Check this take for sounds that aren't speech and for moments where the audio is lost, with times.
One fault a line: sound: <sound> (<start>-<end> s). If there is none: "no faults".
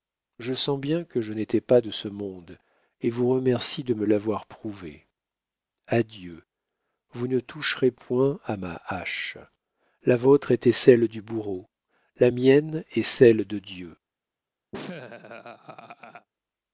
sound: laugh (14.7-16.3 s)